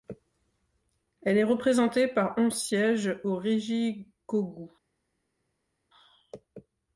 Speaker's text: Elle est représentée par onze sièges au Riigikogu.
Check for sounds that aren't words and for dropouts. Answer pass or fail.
pass